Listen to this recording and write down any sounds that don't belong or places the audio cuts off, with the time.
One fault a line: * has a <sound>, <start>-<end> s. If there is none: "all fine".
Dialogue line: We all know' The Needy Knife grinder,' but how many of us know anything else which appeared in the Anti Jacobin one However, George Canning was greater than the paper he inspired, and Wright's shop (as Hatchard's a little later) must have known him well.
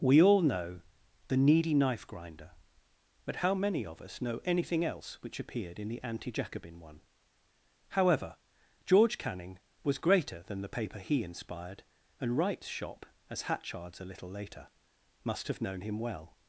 all fine